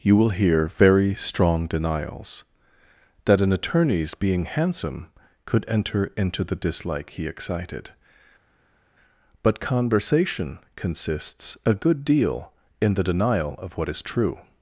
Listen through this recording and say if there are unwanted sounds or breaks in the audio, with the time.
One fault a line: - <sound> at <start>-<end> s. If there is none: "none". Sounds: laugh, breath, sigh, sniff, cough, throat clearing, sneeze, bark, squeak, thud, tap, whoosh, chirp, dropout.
none